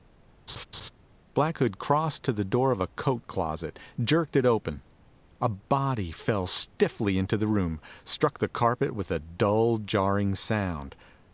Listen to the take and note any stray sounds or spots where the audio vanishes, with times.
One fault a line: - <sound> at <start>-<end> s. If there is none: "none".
- laugh at 0.5-0.9 s